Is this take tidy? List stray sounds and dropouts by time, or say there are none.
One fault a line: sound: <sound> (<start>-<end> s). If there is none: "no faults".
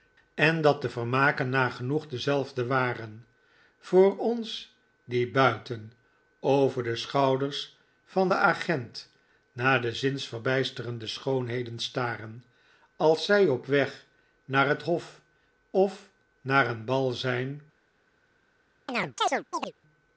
sound: chirp (18.9-19.7 s)